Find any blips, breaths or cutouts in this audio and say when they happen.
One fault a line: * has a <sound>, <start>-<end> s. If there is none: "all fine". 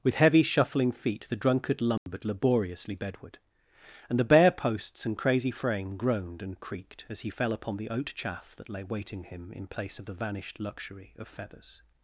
* has a dropout, 2.0-2.1 s